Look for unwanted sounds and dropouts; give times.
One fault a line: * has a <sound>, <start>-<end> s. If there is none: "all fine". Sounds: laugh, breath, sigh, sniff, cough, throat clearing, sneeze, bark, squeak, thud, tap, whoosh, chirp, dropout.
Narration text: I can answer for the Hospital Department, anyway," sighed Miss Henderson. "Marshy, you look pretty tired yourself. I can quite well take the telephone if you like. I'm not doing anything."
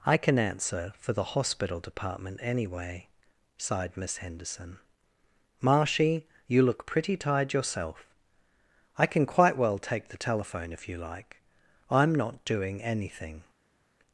all fine